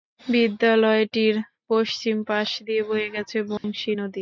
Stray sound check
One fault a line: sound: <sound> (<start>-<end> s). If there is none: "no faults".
sound: dropout (3.6-3.6 s)